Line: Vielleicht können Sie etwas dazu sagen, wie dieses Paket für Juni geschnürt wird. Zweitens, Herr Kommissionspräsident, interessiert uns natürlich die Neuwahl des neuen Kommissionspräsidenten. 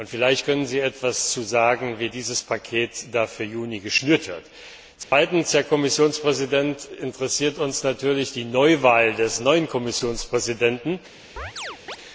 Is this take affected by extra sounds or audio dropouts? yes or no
yes